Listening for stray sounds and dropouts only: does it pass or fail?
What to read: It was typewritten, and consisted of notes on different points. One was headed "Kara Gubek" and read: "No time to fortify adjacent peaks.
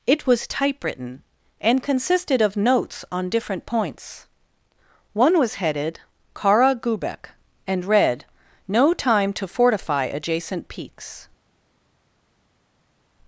pass